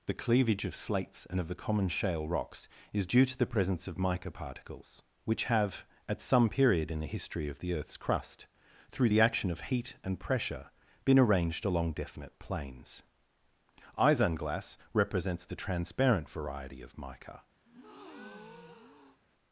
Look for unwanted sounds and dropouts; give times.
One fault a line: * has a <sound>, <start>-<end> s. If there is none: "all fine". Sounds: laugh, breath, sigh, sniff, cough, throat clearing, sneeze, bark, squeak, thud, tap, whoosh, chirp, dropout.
* has a breath, 17.6-19.2 s